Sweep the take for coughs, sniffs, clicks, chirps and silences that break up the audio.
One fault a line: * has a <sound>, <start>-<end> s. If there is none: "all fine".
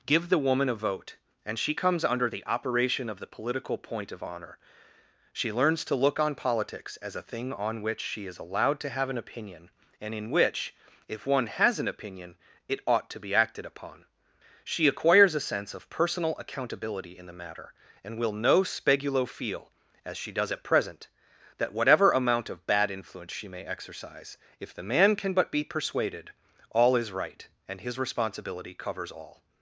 all fine